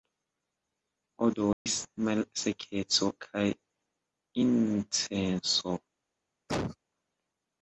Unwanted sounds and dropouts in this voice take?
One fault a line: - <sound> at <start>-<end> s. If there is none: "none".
- dropout at 1.5-1.7 s
- cough at 6.5-6.8 s